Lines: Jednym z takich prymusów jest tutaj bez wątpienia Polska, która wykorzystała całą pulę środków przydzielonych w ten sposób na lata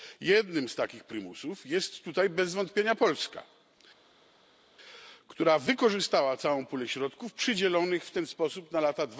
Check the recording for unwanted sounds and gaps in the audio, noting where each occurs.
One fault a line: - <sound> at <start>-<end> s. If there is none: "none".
none